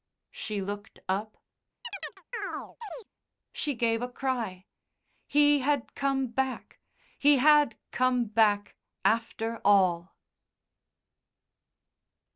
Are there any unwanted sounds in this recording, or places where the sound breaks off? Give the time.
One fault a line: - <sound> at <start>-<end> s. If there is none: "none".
- chirp at 1.8-3.1 s